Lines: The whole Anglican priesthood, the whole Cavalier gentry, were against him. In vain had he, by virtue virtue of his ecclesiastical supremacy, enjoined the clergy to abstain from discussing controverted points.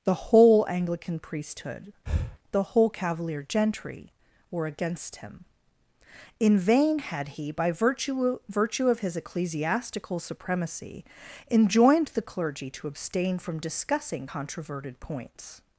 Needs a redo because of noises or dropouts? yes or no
yes